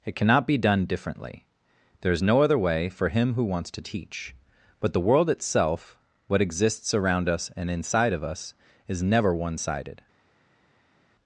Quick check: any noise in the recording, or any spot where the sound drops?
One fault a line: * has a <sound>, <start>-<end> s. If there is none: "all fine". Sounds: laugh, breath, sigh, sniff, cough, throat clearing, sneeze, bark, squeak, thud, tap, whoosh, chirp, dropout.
all fine